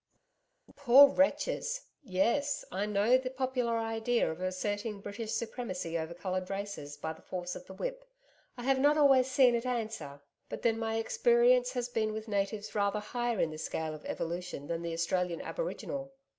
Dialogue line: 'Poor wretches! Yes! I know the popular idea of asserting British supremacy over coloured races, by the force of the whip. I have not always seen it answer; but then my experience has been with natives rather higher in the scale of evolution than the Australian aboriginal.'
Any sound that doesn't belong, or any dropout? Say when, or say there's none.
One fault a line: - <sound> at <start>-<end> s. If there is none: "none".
none